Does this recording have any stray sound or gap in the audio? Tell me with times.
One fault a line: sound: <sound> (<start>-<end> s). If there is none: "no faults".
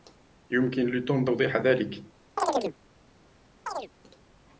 sound: chirp (2.4-2.8 s)
sound: chirp (3.7-3.9 s)